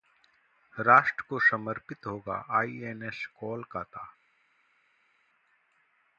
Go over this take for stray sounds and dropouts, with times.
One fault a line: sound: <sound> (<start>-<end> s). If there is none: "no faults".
no faults